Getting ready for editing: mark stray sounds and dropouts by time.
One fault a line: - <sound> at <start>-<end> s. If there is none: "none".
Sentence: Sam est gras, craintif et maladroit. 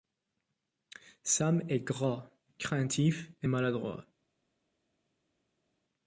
none